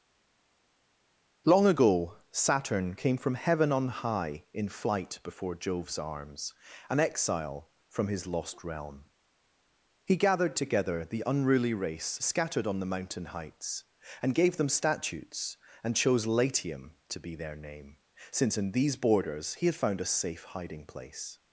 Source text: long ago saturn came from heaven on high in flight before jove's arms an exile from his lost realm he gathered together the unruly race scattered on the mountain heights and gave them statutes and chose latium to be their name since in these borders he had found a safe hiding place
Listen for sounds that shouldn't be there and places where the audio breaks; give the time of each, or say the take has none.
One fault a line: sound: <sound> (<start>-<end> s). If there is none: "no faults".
no faults